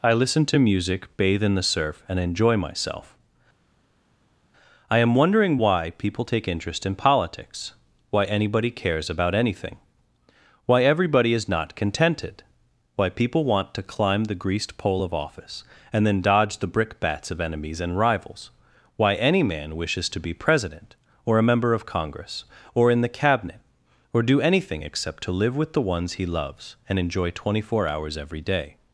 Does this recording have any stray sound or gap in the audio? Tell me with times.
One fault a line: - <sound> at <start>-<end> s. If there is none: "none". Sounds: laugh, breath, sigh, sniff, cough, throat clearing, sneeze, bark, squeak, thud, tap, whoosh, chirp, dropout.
none